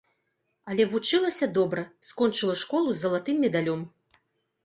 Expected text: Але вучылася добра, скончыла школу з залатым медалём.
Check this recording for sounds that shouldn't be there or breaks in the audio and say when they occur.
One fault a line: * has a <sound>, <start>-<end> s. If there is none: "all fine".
all fine